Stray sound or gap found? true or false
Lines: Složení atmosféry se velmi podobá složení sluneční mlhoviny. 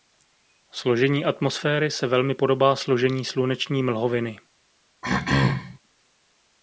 true